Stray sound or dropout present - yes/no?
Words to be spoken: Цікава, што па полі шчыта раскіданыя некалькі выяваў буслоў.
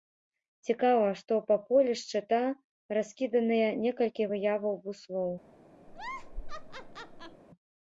yes